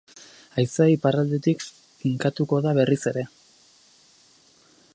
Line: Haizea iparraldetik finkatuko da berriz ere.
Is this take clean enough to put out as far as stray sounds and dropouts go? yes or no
yes